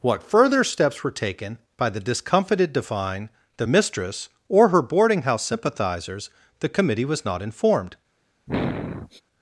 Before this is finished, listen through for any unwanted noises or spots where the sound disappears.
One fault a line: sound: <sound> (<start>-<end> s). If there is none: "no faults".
sound: sniff (8.5-9.2 s)